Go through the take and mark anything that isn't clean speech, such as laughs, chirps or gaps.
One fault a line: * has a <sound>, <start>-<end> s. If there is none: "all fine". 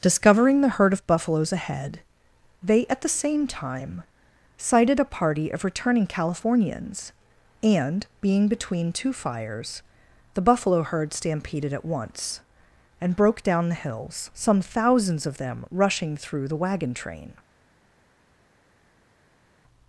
all fine